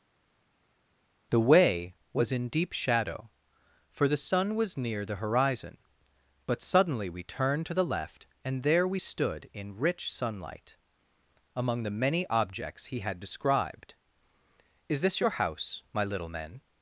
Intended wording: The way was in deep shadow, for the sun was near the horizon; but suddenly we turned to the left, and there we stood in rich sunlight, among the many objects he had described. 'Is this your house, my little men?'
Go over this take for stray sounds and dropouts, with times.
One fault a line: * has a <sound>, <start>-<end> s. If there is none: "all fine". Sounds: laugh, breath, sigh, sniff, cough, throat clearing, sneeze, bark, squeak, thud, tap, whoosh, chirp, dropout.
all fine